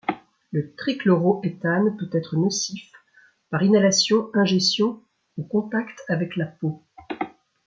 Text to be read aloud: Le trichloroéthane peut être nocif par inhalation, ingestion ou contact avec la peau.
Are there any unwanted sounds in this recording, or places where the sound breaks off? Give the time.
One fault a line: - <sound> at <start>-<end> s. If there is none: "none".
none